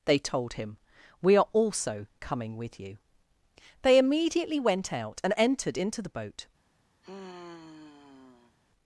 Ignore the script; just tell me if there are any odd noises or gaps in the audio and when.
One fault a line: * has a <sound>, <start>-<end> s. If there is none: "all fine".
* has a sigh, 7.0-8.6 s